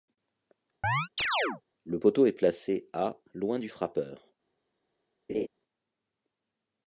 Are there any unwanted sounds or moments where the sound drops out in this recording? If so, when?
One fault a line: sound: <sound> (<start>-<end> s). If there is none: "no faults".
sound: chirp (0.8-1.6 s)
sound: laugh (5.3-5.5 s)